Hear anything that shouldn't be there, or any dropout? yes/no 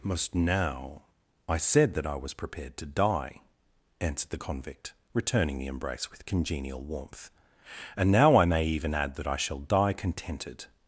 no